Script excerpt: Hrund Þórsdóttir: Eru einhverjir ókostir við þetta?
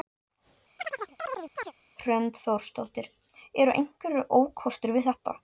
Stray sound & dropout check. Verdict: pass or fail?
fail